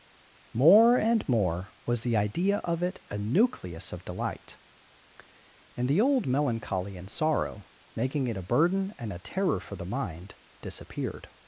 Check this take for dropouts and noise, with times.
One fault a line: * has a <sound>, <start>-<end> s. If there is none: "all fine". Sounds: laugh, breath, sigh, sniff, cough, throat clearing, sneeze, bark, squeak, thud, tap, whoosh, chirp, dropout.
all fine